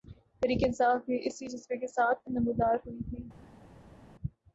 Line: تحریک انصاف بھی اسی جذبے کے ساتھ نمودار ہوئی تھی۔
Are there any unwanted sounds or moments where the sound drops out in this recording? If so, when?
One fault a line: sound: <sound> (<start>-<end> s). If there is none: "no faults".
no faults